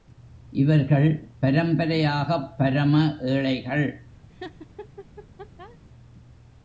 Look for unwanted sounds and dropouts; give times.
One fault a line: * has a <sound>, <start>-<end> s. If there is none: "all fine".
* has a laugh, 4.3-5.8 s